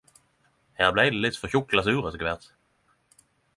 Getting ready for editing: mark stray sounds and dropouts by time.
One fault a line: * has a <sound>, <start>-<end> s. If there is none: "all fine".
all fine